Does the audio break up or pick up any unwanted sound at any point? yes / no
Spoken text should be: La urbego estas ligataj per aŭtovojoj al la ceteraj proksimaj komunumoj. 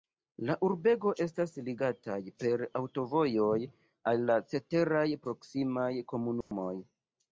yes